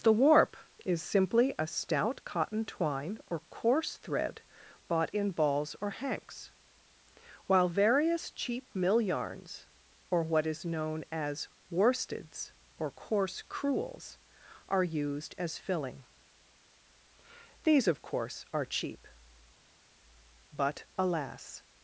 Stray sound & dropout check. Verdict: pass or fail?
pass